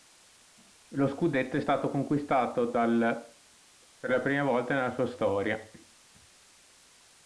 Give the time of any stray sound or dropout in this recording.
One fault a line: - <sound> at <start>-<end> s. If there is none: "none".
none